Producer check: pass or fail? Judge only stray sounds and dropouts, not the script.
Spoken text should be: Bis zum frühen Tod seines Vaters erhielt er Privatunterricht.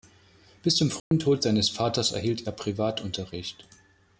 fail